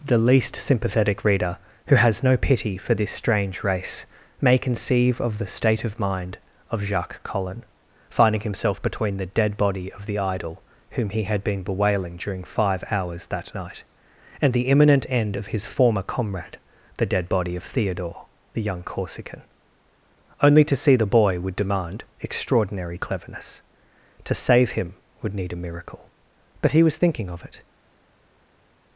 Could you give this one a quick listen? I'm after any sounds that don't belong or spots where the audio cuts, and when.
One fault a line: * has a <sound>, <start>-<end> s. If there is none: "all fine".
all fine